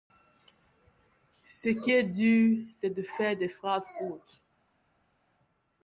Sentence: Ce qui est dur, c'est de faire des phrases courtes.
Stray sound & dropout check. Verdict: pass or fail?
pass